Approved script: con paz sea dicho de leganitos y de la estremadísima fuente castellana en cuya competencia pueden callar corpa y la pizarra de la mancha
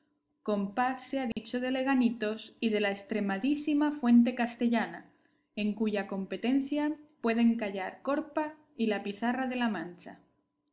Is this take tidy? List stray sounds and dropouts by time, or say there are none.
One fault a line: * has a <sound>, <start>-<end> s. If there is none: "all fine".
* has a dropout, 1.3-1.4 s